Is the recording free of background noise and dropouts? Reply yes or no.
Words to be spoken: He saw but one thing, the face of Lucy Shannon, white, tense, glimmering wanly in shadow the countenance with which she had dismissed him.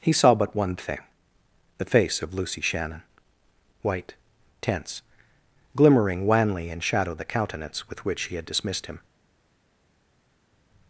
yes